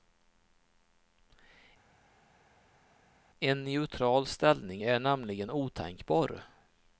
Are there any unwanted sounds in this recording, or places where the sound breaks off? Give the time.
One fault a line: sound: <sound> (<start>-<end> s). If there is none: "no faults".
no faults